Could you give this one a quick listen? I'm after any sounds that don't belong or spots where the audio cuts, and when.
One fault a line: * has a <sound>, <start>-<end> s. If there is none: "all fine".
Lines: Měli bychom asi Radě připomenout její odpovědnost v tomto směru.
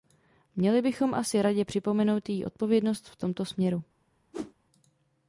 * has a whoosh, 4.3-4.5 s